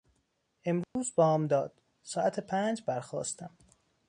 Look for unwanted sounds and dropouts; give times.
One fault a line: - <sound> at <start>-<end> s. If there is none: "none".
- dropout at 0.8-1.0 s